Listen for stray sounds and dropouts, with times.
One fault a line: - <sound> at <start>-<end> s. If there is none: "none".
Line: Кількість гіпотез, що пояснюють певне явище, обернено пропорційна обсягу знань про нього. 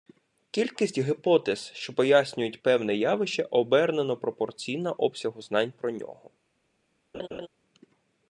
- laugh at 7.1-7.5 s